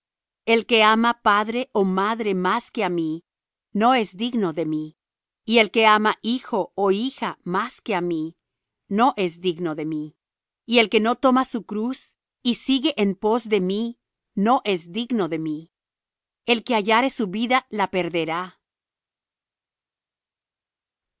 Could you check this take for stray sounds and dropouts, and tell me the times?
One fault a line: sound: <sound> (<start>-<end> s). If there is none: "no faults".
no faults